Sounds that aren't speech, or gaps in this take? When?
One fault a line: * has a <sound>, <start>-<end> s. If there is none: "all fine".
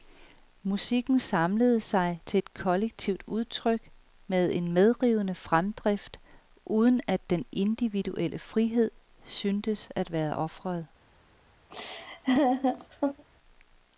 * has a laugh, 11.7-13.2 s